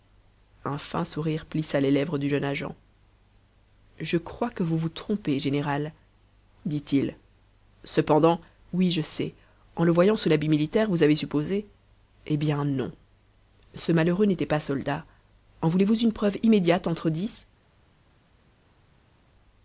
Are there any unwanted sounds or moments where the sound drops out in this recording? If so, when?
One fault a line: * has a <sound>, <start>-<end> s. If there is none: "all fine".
all fine